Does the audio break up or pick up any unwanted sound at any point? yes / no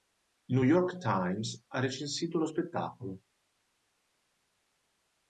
no